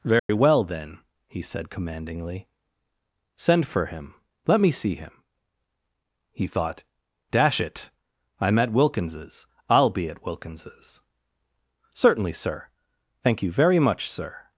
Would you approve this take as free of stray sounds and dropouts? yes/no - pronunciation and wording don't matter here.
no